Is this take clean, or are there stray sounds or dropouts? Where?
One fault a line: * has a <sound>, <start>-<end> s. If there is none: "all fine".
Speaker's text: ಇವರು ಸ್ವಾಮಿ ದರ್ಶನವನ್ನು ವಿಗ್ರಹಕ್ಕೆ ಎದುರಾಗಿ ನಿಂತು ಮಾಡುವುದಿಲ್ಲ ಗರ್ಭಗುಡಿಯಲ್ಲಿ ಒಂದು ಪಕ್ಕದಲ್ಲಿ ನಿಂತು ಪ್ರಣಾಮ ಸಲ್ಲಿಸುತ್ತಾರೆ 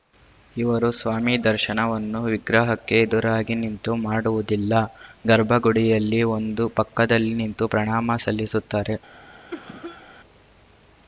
* has a cough, 9.5-10.1 s